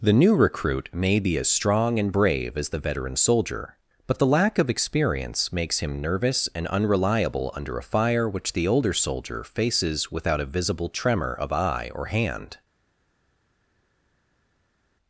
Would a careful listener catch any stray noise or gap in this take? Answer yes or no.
no